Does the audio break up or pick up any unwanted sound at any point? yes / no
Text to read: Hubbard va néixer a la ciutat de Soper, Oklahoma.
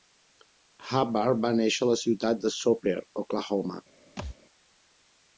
yes